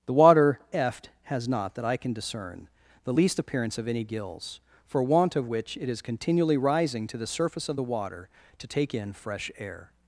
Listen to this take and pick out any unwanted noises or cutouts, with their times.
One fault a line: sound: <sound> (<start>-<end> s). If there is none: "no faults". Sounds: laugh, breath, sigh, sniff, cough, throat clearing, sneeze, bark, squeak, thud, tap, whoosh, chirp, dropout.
no faults